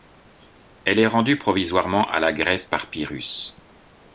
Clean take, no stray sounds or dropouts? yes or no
yes